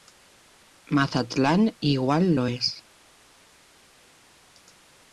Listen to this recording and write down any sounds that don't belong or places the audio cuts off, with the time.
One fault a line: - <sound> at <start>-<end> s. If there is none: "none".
none